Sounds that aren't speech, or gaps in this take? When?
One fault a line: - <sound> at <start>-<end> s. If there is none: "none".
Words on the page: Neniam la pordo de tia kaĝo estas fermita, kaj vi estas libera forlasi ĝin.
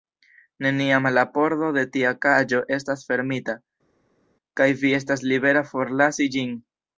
none